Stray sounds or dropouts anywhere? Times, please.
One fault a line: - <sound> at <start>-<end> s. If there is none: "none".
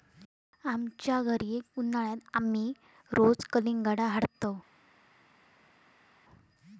none